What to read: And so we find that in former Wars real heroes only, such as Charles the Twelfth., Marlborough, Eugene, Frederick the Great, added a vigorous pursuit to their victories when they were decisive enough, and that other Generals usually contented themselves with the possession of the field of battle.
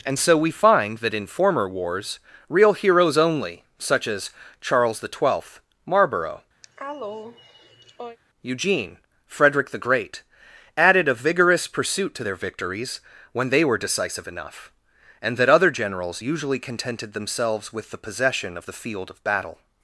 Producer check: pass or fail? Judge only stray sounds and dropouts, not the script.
fail